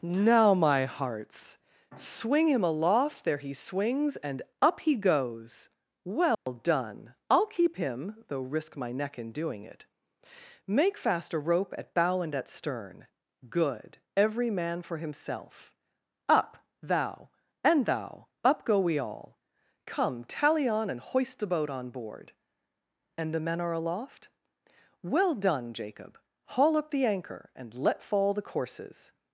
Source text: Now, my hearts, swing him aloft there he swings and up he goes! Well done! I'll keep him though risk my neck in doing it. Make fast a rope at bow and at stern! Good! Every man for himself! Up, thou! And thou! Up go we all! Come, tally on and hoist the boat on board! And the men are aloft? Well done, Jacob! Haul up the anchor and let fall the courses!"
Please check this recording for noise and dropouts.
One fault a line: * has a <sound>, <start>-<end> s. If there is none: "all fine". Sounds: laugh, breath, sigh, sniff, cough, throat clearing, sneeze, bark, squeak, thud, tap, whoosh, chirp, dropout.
* has a dropout, 6.3-6.5 s